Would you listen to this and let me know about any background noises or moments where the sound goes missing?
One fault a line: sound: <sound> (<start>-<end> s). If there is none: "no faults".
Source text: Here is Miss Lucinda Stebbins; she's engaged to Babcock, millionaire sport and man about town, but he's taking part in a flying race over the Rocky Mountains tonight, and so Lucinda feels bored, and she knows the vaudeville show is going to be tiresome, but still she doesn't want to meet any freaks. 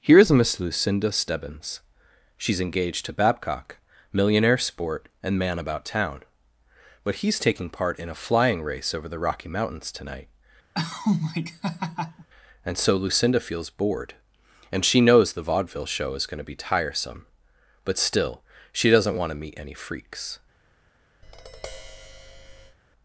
sound: laugh (10.7-12.3 s)
sound: tap (21.2-22.8 s)